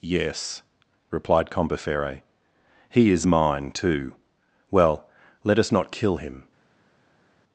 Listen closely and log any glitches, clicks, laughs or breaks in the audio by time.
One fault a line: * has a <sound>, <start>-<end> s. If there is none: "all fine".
all fine